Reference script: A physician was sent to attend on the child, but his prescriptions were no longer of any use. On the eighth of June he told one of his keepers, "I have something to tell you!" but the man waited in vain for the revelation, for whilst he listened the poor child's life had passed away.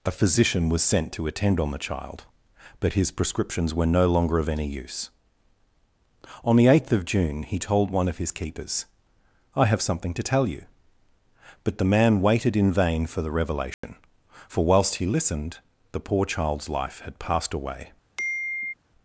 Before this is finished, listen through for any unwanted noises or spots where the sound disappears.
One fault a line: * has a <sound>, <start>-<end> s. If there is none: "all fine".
* has a dropout, 13.7-13.8 s
* has a sigh, 18.2-18.7 s